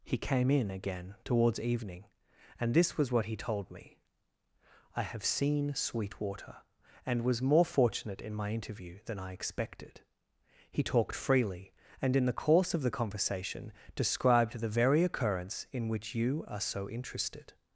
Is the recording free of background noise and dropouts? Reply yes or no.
yes